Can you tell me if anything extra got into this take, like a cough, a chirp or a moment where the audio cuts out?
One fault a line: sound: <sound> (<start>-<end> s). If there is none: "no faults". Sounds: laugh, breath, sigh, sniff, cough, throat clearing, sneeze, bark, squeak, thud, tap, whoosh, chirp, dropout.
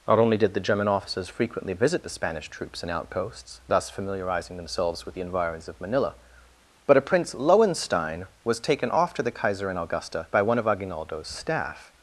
no faults